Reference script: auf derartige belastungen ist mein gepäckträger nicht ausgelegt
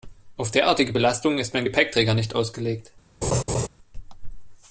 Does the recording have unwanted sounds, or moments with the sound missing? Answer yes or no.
yes